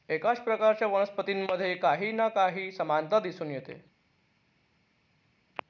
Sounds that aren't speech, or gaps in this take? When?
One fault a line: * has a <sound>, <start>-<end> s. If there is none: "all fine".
all fine